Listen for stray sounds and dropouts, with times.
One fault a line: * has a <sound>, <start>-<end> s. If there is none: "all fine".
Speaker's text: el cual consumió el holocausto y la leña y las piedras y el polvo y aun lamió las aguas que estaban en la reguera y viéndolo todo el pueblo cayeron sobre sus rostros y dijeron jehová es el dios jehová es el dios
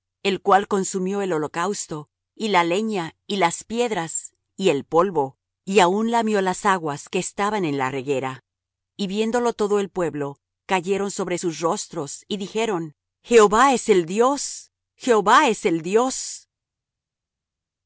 all fine